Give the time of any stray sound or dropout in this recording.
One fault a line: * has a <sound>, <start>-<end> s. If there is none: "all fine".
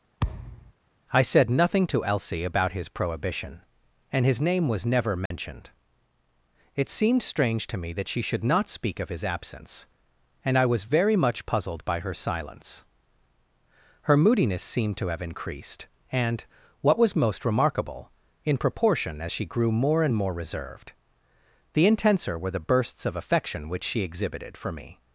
* has a thud, 0.2-0.7 s
* has a dropout, 5.3-5.3 s